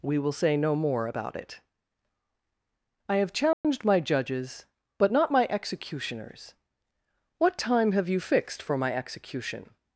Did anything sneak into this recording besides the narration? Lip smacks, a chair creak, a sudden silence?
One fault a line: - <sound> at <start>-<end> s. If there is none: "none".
- dropout at 3.5-3.6 s